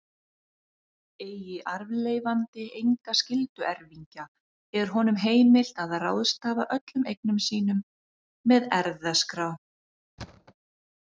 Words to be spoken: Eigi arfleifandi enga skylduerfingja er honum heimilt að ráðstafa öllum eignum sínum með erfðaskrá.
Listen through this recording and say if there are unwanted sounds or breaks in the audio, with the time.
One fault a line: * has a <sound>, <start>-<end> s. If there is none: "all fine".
* has a thud, 10.2-10.5 s